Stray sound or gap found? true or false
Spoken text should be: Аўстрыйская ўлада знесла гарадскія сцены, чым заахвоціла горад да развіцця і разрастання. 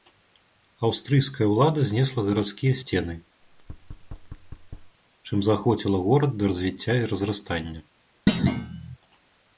true